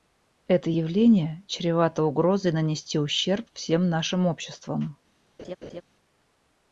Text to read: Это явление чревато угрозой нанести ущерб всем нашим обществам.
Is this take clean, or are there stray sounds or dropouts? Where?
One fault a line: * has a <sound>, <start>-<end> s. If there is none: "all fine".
* has a laugh, 5.4-5.8 s